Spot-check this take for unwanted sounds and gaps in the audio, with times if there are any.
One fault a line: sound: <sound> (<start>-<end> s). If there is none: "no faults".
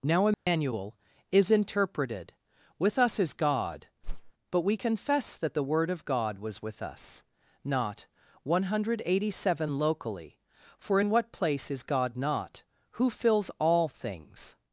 sound: dropout (0.3-0.5 s)
sound: whoosh (4.0-4.3 s)